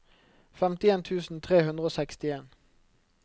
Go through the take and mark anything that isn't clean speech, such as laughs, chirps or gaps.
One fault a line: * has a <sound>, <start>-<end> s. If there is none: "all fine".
all fine